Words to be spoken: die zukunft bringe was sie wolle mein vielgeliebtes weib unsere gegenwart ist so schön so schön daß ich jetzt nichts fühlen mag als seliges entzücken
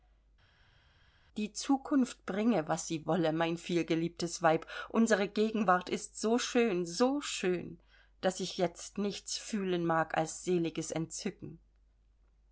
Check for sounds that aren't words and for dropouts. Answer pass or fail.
pass